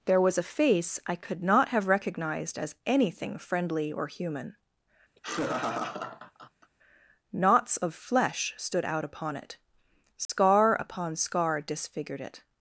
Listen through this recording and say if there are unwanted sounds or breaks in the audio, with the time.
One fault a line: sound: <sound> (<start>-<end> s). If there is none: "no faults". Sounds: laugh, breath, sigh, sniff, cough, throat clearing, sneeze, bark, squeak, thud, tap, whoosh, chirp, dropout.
sound: laugh (5.2-6.7 s)
sound: dropout (10.2-10.3 s)